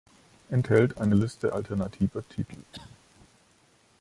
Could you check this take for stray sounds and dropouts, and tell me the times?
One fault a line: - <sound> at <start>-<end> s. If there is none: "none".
- cough at 2.7-3.0 s